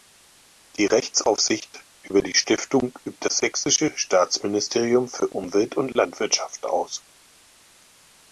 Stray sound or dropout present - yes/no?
no